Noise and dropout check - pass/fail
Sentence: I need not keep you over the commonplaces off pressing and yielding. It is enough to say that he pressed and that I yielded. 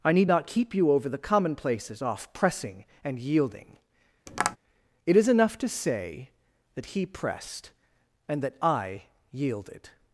fail